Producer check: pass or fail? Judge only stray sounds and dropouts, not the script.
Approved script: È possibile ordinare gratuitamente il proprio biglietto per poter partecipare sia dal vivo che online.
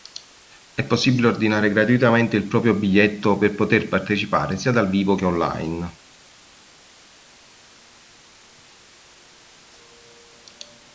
pass